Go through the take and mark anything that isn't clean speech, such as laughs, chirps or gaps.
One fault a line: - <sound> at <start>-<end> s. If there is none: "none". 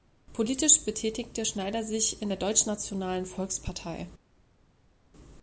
none